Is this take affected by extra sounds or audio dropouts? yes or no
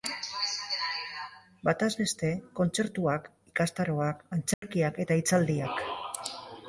yes